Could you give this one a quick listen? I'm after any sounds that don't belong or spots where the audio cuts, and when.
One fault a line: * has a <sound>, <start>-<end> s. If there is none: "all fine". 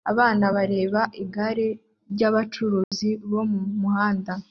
* has a dropout, 2.8-2.9 s